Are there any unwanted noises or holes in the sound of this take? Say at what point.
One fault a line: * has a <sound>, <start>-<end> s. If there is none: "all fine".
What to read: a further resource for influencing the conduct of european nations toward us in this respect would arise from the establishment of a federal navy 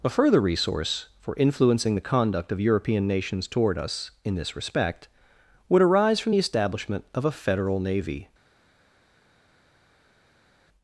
all fine